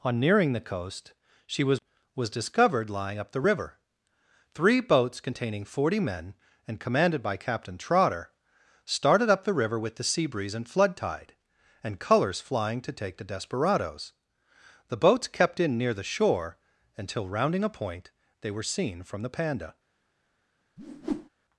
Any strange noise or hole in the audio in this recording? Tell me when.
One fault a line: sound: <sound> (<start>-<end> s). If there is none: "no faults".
sound: whoosh (20.8-21.3 s)